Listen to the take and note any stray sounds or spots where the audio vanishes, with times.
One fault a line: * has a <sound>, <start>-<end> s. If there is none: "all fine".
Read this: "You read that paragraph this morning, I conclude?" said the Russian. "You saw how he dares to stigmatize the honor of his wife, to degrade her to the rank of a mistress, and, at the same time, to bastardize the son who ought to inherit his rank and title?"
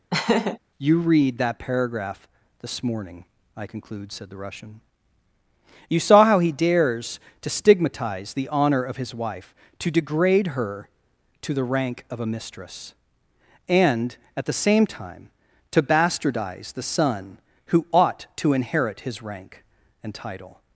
* has a laugh, 0.1-0.6 s